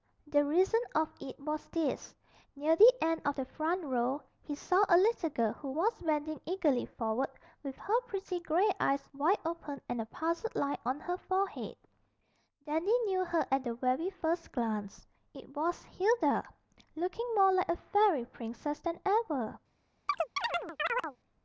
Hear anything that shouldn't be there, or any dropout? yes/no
yes